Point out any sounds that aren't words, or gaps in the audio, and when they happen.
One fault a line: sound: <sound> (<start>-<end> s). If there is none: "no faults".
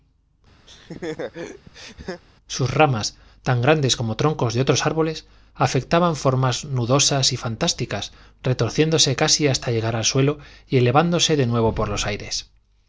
sound: laugh (0.7-2.2 s)